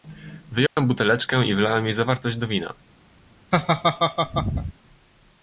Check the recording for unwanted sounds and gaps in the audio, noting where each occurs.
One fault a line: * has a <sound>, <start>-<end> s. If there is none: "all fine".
* has a dropout, 0.7-0.8 s
* has a laugh, 3.5-4.7 s